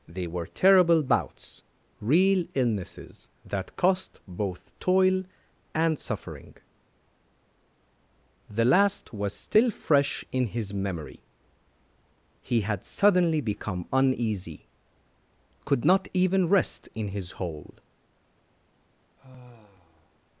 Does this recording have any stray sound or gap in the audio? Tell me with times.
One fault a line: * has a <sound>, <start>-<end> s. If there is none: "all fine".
* has a sigh, 19.2-20.2 s